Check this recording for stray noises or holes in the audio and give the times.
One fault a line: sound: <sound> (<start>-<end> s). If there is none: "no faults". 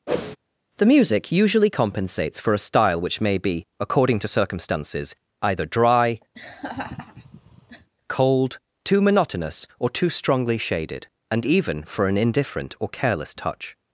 sound: whoosh (0.1-0.4 s)
sound: laugh (6.3-7.9 s)